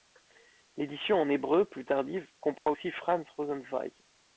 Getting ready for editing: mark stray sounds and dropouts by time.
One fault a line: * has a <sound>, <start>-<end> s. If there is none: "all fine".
* has a dropout, 2.6-2.7 s